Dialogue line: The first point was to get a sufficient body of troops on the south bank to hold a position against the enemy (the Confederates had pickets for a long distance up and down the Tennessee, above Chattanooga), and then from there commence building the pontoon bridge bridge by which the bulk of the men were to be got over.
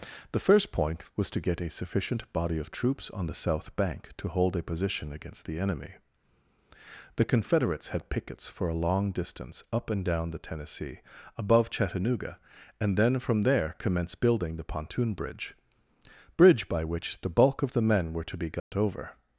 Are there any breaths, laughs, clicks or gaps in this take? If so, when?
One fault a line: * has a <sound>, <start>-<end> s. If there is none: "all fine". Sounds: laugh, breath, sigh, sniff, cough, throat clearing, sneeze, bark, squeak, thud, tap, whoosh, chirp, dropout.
* has a dropout, 18.6-18.7 s